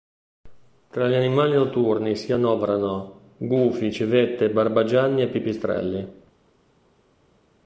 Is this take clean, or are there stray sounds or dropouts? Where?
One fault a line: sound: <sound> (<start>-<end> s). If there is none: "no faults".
no faults